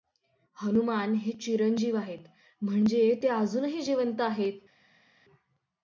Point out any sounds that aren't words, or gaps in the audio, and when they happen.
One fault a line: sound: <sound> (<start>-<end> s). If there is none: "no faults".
no faults